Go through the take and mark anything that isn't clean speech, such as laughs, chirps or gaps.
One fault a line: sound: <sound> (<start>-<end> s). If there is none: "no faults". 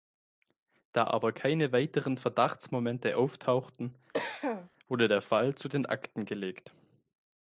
sound: cough (4.1-4.7 s)